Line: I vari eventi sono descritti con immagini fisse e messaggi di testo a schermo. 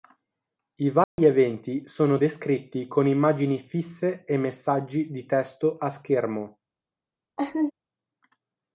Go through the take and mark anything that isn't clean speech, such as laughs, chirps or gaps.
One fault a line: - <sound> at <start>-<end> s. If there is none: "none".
- dropout at 1.0-1.2 s
- laugh at 7.4-7.7 s